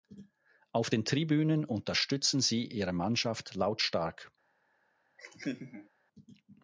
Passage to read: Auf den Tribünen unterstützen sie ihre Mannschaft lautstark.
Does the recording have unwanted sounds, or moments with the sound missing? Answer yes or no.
yes